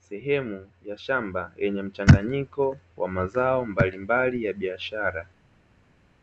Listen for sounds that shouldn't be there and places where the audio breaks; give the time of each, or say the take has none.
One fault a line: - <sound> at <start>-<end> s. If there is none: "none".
none